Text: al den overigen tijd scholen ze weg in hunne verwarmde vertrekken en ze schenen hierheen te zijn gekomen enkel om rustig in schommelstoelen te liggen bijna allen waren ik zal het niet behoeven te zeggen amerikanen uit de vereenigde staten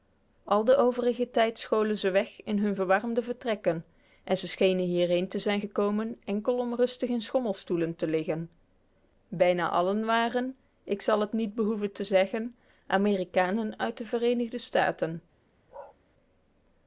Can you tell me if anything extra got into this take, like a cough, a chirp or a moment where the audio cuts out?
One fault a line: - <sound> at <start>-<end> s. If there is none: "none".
- bark at 15.7-16.0 s